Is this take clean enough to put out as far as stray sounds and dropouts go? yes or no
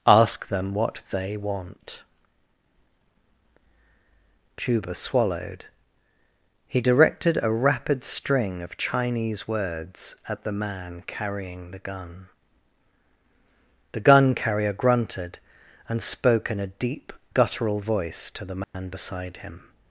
no